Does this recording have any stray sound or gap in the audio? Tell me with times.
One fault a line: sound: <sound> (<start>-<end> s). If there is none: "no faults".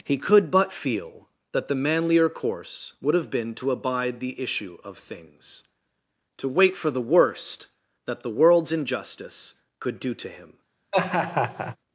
sound: laugh (10.9-11.8 s)